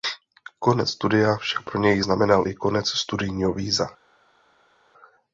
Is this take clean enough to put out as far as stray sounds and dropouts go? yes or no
yes